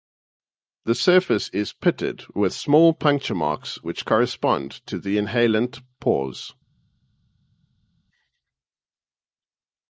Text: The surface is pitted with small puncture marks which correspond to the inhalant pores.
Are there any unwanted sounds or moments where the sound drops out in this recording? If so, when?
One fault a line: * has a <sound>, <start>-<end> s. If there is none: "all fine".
all fine